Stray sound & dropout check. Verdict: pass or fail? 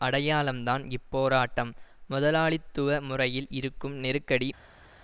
pass